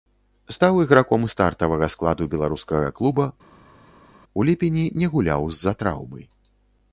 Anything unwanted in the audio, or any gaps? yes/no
no